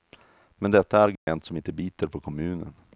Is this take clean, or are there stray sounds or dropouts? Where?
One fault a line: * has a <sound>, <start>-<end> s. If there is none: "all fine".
* has a dropout, 1.2-1.3 s